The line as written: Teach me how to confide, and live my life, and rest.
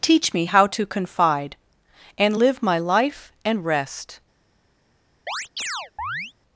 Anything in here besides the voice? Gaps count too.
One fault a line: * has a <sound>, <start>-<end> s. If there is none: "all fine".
* has a chirp, 5.3-6.3 s